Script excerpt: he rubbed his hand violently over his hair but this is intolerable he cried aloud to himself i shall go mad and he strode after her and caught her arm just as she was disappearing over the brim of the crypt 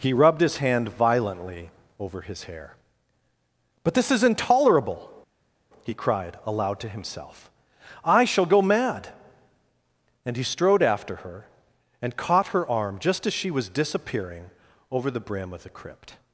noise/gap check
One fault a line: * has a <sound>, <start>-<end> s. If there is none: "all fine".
all fine